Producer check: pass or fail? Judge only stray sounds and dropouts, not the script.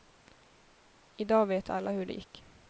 pass